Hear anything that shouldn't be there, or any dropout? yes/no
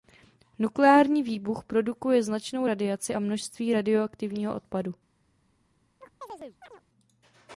yes